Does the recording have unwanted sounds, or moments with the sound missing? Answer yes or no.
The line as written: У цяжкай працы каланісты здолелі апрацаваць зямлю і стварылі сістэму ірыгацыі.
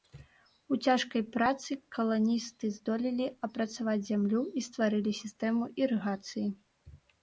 no